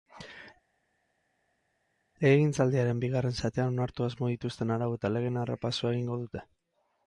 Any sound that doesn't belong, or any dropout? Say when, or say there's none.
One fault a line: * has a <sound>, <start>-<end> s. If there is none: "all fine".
all fine